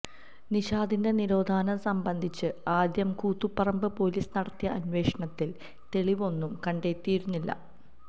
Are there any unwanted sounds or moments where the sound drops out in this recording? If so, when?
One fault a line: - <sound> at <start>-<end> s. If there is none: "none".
none